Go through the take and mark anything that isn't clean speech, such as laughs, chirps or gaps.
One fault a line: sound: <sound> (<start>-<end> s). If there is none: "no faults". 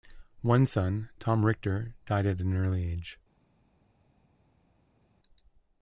no faults